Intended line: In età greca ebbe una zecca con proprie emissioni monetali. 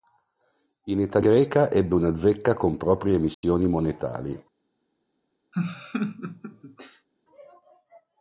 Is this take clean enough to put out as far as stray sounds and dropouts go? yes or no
no